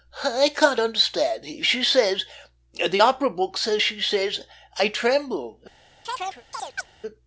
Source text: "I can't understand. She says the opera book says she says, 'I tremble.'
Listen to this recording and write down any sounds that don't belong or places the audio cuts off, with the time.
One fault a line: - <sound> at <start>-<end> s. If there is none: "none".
- chirp at 6.0-6.9 s